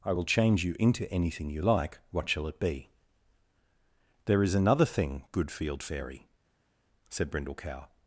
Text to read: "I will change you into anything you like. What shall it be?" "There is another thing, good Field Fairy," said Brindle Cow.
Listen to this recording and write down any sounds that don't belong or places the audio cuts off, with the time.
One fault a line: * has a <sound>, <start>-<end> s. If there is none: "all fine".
all fine